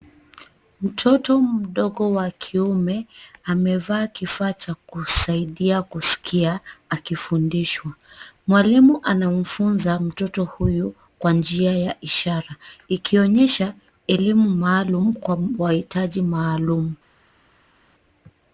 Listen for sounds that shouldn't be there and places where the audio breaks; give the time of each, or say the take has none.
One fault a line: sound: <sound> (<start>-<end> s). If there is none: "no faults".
no faults